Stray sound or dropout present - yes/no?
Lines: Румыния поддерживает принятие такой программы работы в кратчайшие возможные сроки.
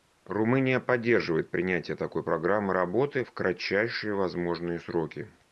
no